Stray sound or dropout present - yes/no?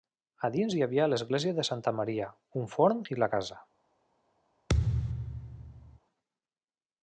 yes